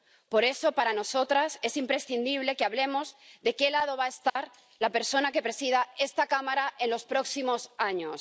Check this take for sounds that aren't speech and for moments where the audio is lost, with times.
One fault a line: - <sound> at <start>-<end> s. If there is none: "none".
- dropout at 4.3-4.4 s